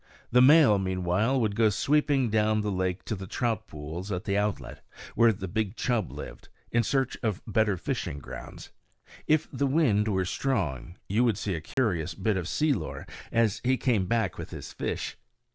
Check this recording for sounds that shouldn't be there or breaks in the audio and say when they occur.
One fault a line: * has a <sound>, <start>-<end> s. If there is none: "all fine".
* has a dropout, 11.7-11.8 s